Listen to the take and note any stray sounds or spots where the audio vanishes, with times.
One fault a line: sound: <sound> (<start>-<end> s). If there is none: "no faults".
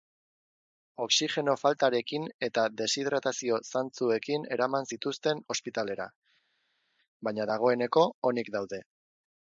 no faults